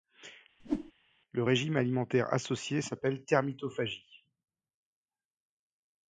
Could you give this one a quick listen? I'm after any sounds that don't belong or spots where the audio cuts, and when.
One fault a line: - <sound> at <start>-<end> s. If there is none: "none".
- whoosh at 0.6-0.9 s